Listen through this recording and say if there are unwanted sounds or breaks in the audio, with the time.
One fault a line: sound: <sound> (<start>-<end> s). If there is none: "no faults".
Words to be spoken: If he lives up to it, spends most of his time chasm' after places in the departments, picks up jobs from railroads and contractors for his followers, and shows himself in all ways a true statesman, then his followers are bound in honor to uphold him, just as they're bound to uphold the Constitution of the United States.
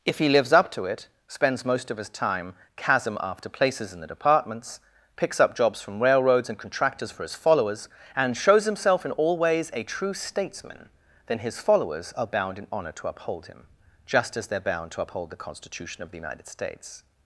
no faults